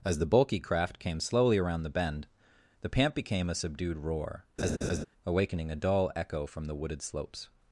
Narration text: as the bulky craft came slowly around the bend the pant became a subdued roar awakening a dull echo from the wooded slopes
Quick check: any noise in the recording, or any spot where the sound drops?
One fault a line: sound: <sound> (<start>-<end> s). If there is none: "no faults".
sound: laugh (4.6-5.0 s)